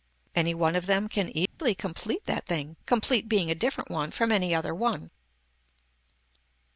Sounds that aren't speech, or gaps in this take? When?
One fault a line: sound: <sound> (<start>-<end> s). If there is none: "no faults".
sound: dropout (1.5-1.6 s)